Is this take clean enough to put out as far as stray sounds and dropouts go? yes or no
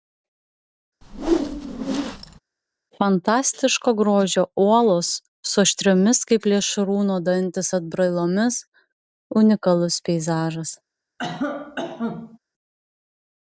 no